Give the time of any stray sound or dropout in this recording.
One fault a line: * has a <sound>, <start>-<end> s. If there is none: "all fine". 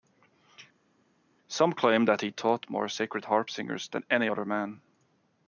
all fine